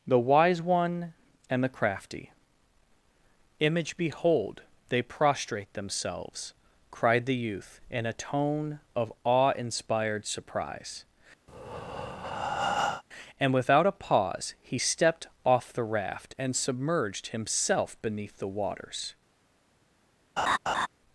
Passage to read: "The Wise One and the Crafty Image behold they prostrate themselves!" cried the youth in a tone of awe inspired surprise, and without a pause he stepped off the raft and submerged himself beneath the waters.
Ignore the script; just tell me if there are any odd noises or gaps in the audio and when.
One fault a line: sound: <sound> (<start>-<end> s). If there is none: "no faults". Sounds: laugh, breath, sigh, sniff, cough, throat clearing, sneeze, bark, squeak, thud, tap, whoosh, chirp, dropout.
sound: breath (11.5-13.0 s)
sound: laugh (20.4-20.9 s)